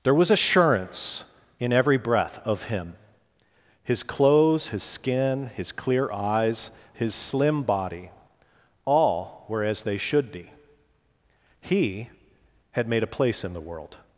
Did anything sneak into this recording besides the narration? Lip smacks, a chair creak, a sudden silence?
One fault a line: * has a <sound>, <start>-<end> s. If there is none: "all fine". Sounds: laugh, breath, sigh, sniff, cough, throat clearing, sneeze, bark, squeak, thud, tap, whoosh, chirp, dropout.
all fine